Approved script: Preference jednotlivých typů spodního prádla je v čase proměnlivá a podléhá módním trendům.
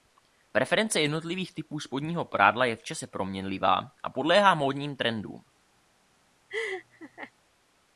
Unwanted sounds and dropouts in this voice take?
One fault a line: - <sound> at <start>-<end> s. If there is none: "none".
- laugh at 6.5-7.3 s